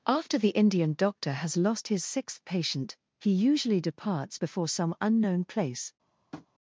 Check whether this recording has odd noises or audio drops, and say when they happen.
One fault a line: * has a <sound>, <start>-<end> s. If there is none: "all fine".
* has a tap, 6.3-6.5 s